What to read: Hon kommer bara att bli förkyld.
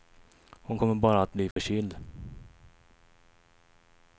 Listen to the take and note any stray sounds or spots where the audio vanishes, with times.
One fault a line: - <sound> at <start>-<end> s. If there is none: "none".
- dropout at 1.5-1.6 s